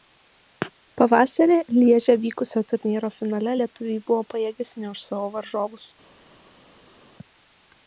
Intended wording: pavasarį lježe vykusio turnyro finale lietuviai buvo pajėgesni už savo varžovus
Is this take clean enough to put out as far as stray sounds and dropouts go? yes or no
yes